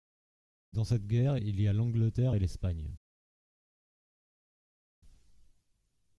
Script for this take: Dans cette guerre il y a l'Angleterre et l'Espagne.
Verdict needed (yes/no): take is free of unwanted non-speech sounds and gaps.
yes